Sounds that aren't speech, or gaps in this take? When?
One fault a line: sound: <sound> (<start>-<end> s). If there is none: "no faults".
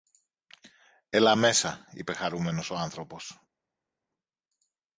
no faults